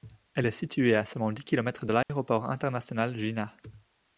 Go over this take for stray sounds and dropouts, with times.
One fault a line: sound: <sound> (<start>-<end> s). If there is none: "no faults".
sound: dropout (2.0-2.1 s)